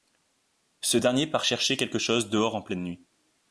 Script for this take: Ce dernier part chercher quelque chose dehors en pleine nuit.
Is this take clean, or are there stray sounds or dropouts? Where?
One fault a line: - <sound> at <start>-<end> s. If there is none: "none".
none